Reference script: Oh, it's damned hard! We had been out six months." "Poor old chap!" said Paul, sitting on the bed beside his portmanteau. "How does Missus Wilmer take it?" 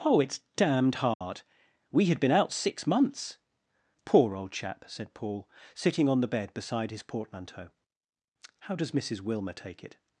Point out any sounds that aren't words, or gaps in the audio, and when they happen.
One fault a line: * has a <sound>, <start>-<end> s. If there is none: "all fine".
* has a dropout, 1.1-1.2 s